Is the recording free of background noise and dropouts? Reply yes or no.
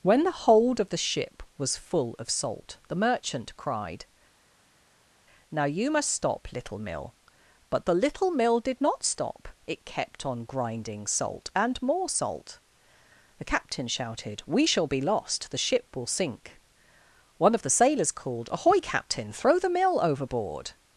yes